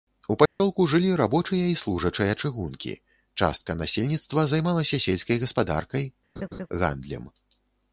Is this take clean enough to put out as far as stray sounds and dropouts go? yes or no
no